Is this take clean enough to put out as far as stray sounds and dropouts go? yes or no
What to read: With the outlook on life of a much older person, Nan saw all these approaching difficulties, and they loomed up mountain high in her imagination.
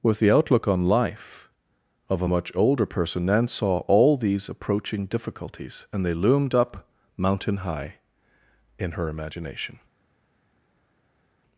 yes